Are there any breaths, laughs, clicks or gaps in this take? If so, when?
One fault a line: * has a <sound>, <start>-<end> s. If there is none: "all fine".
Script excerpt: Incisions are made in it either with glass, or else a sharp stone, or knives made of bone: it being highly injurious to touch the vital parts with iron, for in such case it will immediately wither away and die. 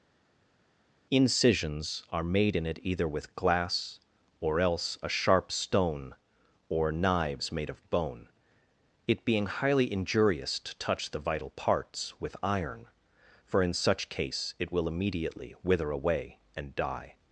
all fine